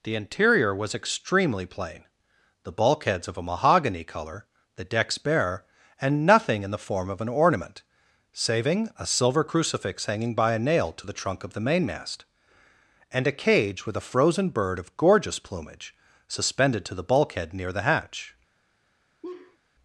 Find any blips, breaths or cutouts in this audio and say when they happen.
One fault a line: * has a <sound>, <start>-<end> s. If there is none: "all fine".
* has a laugh, 19.2-19.6 s